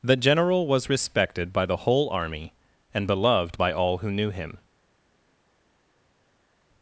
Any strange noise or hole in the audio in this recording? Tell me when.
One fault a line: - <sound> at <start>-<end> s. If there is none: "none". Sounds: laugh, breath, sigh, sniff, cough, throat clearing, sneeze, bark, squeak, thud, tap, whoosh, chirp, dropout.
none